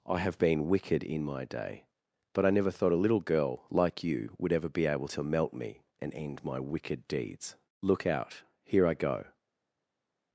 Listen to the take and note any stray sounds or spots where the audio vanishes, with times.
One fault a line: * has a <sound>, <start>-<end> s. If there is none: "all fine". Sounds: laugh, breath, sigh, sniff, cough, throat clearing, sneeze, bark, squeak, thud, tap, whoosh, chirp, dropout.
all fine